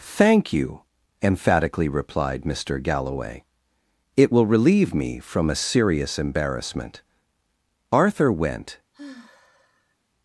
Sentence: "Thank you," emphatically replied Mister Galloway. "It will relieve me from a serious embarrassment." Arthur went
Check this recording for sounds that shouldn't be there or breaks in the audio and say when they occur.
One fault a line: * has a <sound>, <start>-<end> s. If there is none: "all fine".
* has a sigh, 8.9-10.0 s